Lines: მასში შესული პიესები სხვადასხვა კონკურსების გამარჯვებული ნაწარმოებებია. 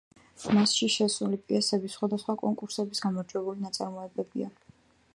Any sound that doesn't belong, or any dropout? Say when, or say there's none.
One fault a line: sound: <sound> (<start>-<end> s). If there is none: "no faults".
no faults